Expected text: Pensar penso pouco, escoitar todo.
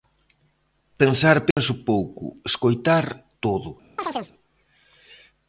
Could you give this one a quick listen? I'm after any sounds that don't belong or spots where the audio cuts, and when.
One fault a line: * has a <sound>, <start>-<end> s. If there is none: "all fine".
* has a dropout, 1.5-1.6 s
* has a chirp, 4.0-4.3 s